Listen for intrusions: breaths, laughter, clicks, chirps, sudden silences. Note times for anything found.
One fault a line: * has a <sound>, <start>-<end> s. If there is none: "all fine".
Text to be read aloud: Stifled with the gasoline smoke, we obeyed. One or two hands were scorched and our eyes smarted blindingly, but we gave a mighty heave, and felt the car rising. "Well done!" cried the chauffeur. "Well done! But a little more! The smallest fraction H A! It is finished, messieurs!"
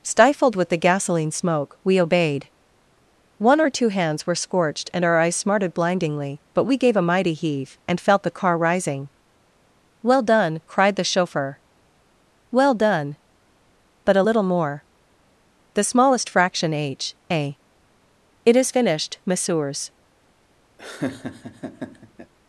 * has a laugh, 20.8-22.3 s